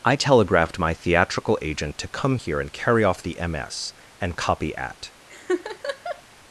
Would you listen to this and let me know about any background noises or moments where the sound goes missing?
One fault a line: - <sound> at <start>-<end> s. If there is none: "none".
- laugh at 5.3-6.2 s